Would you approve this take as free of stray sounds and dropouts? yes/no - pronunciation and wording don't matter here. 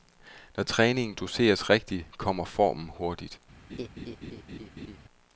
no